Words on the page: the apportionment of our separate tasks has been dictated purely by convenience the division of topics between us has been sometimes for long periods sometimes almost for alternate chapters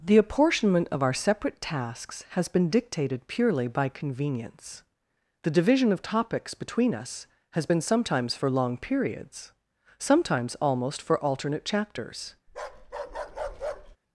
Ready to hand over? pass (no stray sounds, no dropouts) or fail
fail